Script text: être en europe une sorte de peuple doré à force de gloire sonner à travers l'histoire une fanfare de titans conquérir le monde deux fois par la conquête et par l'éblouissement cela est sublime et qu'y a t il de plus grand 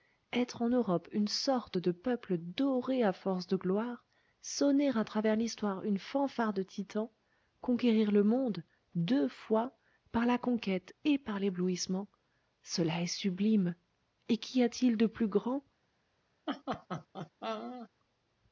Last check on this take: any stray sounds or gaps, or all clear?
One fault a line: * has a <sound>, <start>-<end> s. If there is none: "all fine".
* has a laugh, 16.5-17.9 s